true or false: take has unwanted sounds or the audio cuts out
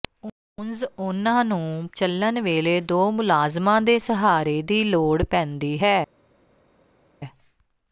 false